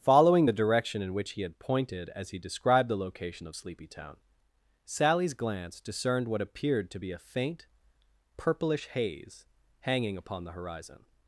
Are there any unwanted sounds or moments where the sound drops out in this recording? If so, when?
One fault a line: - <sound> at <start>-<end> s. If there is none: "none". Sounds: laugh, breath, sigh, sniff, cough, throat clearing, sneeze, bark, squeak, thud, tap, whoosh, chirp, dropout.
none